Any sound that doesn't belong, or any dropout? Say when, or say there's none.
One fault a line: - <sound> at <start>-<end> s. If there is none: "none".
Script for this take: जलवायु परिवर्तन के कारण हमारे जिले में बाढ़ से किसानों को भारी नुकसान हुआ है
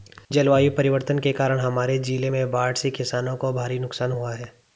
none